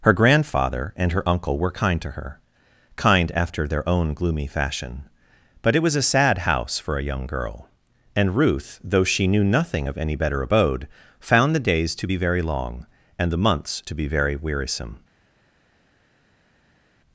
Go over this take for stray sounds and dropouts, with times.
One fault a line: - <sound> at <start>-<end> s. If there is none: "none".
none